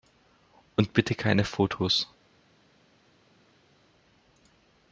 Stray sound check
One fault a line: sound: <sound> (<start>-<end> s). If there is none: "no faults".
no faults